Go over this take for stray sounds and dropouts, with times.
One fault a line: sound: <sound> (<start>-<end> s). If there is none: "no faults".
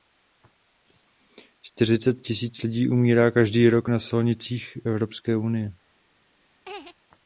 sound: laugh (6.7-7.0 s)